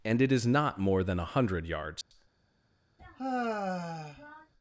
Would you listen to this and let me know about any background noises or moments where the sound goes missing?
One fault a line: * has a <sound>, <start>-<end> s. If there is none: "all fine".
* has a dropout, 2.0-2.1 s
* has a sigh, 3.0-4.5 s